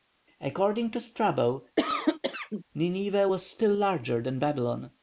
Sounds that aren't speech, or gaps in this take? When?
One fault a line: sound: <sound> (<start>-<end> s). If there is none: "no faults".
sound: cough (1.8-2.6 s)